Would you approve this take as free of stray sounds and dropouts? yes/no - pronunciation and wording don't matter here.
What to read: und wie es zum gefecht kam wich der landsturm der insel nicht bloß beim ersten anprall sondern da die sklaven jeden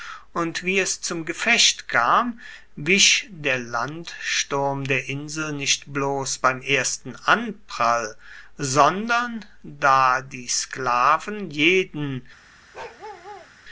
no